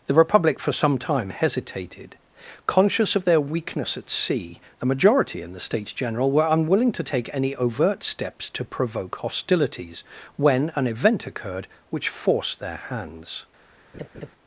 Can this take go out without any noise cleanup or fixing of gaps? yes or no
no